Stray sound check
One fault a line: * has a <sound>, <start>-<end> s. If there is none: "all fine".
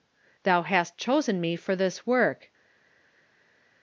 all fine